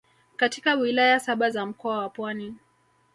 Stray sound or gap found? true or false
false